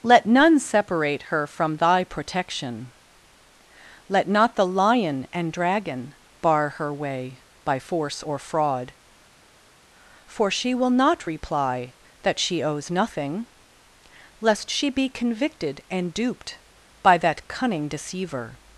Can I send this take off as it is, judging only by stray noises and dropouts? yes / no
yes